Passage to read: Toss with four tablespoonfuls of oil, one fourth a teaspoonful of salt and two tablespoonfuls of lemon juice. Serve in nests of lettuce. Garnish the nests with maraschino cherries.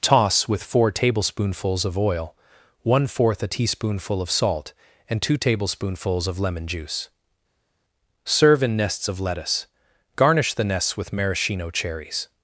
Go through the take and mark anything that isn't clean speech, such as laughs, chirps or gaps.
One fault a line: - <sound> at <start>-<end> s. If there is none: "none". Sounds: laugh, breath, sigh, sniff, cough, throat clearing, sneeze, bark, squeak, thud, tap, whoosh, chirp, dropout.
none